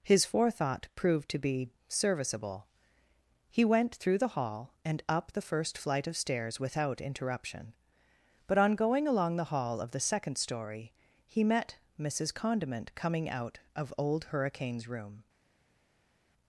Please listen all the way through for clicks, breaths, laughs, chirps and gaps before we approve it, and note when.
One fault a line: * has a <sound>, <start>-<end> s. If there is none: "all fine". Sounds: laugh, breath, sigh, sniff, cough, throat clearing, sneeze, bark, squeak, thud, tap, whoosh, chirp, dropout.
all fine